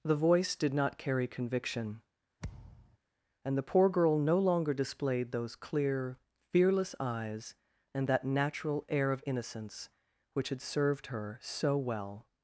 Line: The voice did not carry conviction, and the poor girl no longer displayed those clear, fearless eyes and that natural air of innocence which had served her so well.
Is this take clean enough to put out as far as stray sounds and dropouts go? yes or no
no